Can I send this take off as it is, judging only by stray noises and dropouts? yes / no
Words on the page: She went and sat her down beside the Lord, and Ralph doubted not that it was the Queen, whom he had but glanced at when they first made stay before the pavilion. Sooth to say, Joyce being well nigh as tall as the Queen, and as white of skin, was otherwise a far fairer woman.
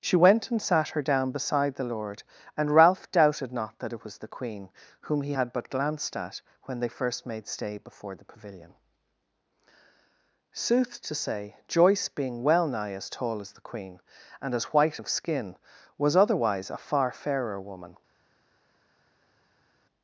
yes